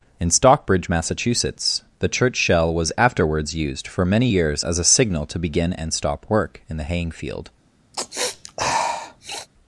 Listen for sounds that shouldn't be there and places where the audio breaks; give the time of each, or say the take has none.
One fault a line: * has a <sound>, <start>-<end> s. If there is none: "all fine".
* has a sniff, 7.9-9.5 s